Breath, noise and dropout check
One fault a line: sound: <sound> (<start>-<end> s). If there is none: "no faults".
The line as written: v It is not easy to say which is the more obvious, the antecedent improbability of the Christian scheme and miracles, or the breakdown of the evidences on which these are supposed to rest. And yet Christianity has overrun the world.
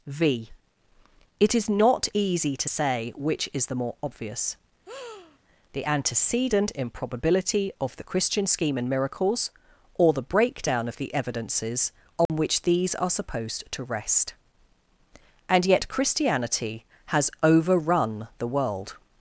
sound: breath (4.9-5.4 s)
sound: dropout (12.3-12.3 s)